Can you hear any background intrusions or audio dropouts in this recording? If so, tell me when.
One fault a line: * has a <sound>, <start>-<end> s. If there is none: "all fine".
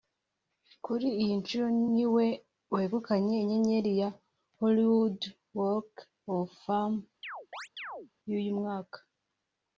* has a chirp, 7.2-8.1 s